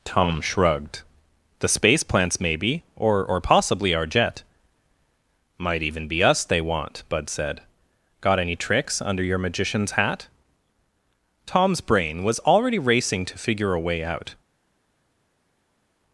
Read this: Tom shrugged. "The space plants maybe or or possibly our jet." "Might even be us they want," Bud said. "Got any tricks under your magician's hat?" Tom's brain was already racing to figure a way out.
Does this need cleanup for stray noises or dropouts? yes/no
no